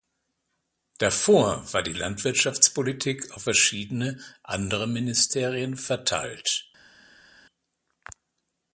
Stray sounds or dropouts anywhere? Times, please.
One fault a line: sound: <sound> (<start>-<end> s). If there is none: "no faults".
no faults